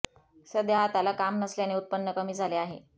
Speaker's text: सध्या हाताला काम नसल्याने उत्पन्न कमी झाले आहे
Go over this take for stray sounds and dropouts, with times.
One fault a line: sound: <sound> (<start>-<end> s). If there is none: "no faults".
no faults